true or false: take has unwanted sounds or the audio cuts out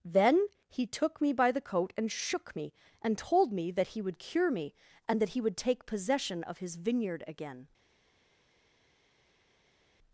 false